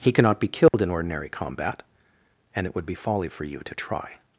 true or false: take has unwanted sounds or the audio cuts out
true